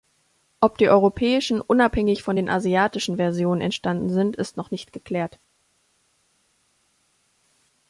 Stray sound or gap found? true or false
false